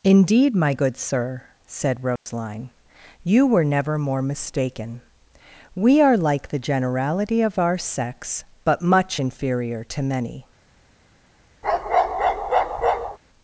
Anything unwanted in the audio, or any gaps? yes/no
yes